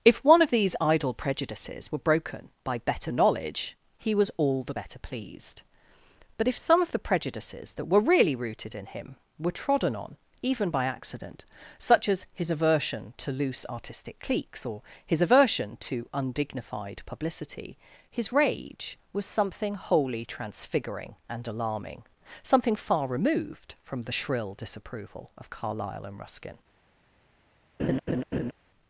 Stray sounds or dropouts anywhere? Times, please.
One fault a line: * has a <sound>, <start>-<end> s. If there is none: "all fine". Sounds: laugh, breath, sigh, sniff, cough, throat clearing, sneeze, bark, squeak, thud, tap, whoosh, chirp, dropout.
* has a laugh, 27.8-28.5 s